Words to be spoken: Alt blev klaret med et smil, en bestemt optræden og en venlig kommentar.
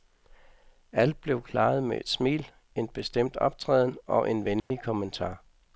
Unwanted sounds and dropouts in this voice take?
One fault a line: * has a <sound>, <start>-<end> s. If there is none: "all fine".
* has a dropout, 4.6-4.7 s